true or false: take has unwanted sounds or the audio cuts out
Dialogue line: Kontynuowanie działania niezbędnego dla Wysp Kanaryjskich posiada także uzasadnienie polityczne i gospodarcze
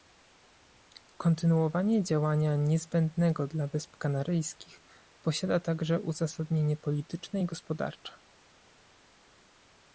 false